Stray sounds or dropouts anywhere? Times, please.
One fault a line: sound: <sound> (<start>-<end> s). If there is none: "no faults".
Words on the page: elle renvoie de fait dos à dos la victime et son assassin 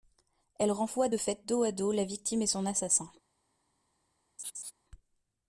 sound: laugh (4.4-4.7 s)